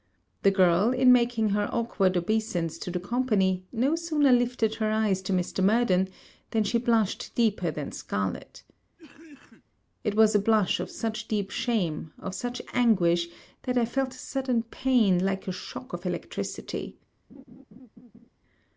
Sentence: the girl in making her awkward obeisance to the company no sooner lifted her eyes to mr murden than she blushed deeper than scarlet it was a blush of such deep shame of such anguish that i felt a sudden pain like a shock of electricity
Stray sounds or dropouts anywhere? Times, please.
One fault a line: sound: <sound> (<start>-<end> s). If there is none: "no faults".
sound: cough (9.0-9.6 s)
sound: laugh (17.3-18.3 s)